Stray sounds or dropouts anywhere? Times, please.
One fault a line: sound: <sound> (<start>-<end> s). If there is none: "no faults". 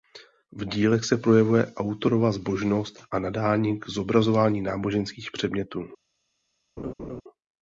sound: laugh (6.8-7.2 s)